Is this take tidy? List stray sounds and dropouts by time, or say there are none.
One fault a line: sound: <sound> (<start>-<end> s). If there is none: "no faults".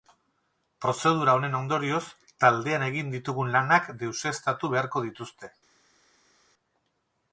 no faults